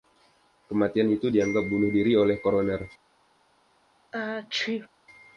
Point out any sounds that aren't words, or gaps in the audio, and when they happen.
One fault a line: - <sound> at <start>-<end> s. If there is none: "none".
- sneeze at 4.1-4.9 s